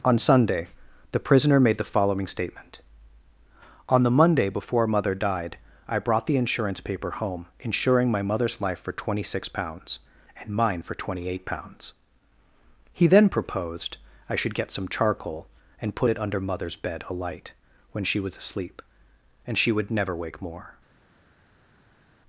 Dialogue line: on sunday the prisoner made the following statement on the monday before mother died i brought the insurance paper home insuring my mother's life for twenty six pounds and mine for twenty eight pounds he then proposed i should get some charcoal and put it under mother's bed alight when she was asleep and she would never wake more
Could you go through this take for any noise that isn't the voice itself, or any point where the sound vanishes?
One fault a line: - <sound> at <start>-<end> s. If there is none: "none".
none